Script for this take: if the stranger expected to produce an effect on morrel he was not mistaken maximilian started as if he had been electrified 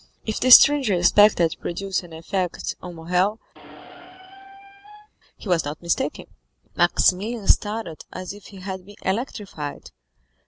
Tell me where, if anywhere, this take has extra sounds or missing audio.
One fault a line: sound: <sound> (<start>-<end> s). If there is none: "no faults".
sound: squeak (3.5-5.1 s)